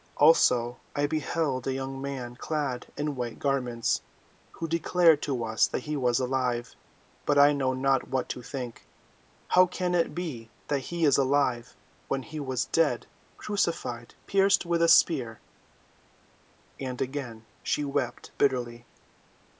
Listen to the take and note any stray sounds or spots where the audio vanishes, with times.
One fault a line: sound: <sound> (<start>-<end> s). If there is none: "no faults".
no faults